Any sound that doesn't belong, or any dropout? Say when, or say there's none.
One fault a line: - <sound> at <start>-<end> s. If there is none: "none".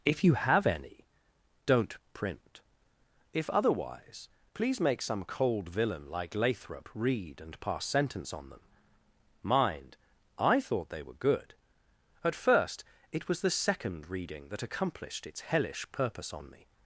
none